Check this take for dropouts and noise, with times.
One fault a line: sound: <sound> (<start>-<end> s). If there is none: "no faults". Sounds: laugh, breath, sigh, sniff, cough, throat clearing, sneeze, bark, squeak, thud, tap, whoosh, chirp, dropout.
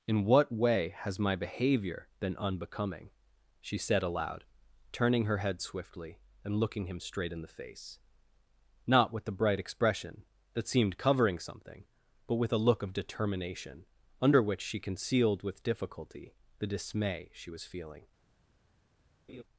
sound: laugh (19.3-19.4 s)